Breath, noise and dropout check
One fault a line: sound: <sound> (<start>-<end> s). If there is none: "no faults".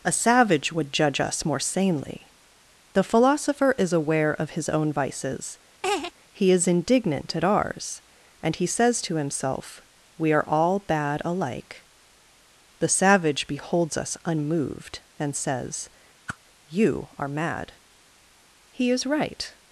sound: laugh (5.8-6.1 s)
sound: whoosh (16.3-16.4 s)